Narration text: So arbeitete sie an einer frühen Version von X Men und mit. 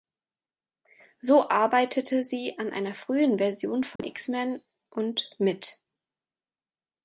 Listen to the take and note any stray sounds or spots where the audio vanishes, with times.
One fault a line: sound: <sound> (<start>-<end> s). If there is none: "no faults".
sound: dropout (4.0-4.0 s)